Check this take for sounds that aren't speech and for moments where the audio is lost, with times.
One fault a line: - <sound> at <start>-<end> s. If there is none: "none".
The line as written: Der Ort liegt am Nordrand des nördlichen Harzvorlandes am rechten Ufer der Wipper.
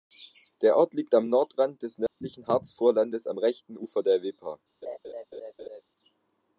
- dropout at 2.1-2.2 s
- laugh at 4.8-5.8 s